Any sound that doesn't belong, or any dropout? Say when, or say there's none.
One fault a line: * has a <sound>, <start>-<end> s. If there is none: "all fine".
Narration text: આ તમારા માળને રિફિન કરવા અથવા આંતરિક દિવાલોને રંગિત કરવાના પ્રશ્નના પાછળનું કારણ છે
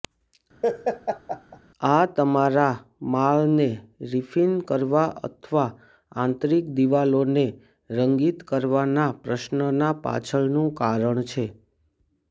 * has a laugh, 0.6-1.6 s